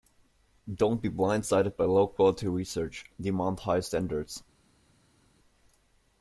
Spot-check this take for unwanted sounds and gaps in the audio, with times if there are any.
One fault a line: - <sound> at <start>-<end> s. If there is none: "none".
none